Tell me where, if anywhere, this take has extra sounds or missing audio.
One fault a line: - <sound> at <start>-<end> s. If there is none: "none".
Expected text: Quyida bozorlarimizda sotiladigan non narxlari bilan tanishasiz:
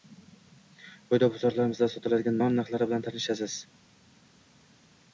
none